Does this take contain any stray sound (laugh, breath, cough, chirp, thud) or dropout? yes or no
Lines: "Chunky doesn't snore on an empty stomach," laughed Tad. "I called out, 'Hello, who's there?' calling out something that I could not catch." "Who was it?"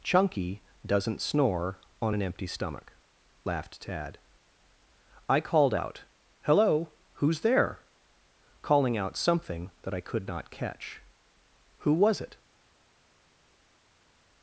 no